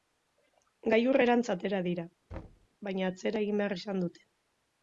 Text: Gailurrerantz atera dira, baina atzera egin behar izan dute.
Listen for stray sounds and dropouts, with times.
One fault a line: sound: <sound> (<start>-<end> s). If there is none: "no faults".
sound: thud (2.3-2.7 s)